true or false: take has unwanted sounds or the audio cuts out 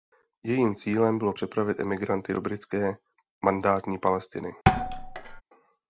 true